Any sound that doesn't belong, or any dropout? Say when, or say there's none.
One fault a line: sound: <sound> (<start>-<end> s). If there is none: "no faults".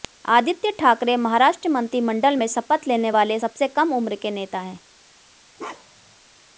sound: bark (5.6-6.2 s)